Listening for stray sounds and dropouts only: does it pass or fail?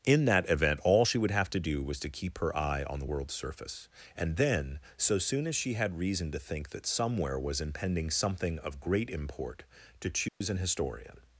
fail